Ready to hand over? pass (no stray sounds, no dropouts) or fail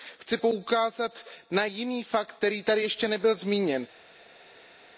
pass